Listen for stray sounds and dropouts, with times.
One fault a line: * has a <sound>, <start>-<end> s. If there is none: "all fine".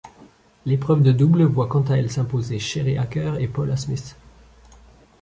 all fine